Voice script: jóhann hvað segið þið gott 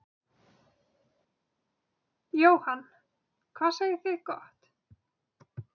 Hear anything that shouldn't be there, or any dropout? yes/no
no